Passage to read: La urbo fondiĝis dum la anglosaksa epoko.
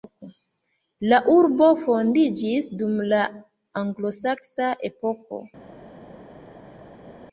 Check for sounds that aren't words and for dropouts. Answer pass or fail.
pass